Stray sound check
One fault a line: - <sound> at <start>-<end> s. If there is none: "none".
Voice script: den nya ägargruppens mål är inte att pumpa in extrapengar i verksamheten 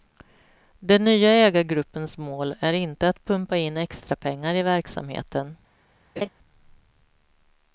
- laugh at 6.2-6.3 s